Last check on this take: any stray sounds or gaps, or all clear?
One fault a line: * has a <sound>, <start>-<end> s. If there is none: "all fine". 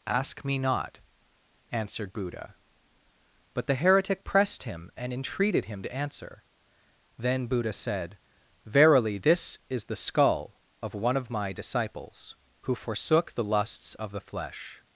all fine